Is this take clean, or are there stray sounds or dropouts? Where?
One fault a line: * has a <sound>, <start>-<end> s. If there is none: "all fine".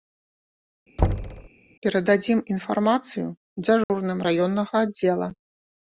* has a thud, 1.0-1.5 s
* has a dropout, 3.8-3.9 s